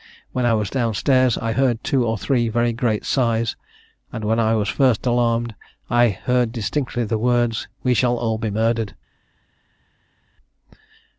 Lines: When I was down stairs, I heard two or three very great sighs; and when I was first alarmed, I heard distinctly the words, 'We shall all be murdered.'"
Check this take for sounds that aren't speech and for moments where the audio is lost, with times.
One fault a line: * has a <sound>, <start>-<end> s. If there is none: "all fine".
all fine